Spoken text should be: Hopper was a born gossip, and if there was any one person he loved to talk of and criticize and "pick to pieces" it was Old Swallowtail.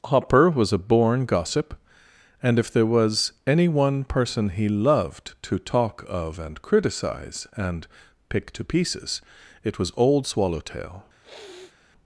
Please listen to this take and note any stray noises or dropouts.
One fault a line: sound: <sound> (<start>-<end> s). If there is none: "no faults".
sound: sniff (11.2-11.8 s)